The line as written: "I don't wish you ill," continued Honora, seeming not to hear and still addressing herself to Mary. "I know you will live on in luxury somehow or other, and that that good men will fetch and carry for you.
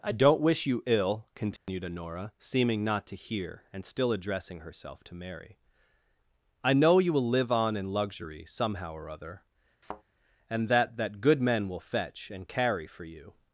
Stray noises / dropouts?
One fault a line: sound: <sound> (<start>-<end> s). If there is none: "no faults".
sound: dropout (1.6-1.7 s)
sound: thud (9.8-10.0 s)